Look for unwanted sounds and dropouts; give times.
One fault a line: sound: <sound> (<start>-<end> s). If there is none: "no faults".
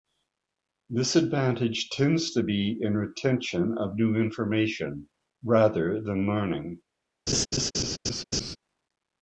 sound: laugh (7.3-8.6 s)